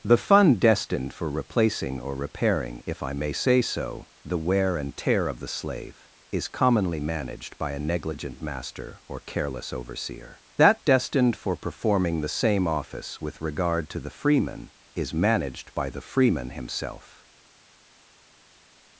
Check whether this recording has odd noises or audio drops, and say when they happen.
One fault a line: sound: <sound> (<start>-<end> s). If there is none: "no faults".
no faults